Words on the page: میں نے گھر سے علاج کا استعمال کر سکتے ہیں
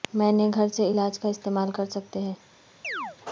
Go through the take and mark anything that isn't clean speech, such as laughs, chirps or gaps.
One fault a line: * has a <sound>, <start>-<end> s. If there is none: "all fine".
* has a chirp, 2.8-3.2 s